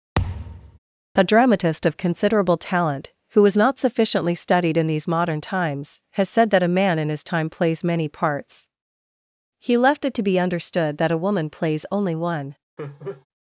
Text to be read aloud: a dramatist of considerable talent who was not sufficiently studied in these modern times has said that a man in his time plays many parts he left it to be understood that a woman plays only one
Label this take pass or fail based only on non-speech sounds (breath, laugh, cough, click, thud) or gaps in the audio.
fail